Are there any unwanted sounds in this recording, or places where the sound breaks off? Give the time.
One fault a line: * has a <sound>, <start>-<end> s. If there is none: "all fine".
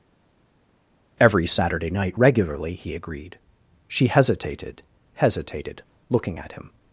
all fine